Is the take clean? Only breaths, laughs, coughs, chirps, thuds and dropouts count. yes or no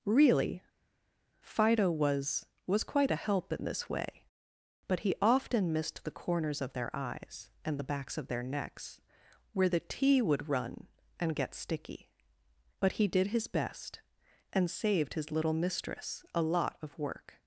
yes